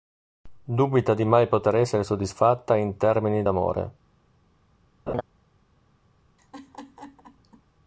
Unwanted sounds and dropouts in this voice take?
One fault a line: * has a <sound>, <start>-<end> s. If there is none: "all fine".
* has a laugh, 5.1-5.2 s
* has a laugh, 6.4-7.6 s